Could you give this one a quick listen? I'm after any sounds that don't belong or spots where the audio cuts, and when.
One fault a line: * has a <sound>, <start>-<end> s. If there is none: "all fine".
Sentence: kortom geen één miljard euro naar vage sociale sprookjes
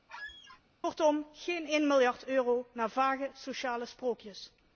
* has a squeak, 0.1-0.6 s